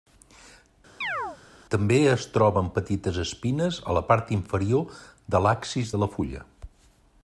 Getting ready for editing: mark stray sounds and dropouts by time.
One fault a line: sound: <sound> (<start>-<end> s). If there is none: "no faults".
sound: chirp (1.0-1.4 s)